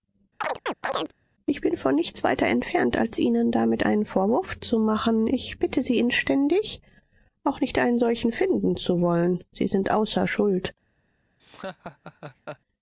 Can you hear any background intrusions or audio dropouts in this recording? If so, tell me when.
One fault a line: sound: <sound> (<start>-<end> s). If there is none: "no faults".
sound: chirp (0.4-1.1 s)
sound: laugh (11.4-12.6 s)